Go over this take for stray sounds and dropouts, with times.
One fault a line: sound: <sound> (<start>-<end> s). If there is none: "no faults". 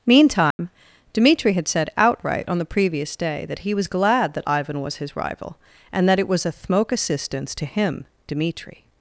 sound: dropout (0.5-0.6 s)